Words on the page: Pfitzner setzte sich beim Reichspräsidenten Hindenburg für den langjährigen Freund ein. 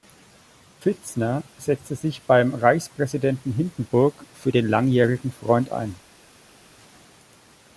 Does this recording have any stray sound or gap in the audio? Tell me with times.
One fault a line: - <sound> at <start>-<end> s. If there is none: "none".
none